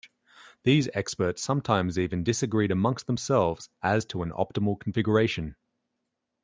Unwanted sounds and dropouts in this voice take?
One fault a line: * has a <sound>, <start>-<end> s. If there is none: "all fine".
all fine